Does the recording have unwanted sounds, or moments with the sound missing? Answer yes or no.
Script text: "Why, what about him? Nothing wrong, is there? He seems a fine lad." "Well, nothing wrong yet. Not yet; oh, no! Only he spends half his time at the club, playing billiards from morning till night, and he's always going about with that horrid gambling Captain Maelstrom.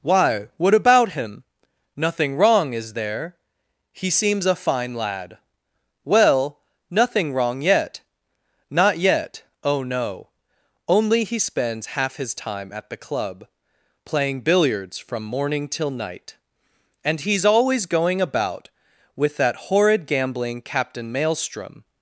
no